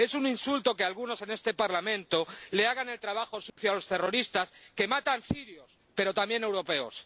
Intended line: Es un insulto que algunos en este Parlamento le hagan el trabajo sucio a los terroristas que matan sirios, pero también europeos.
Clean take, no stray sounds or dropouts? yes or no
no